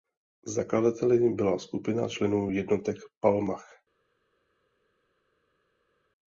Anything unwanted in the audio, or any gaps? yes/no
no